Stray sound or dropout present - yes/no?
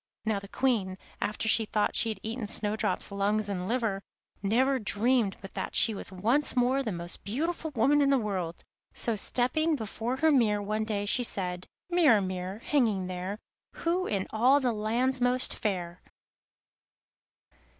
no